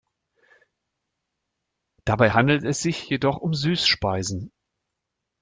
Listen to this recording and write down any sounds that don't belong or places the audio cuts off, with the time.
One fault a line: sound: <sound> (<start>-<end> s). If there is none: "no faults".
no faults